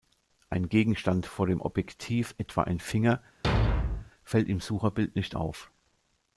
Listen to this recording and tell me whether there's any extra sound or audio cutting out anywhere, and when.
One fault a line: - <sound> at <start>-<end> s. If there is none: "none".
- thud at 3.4-4.1 s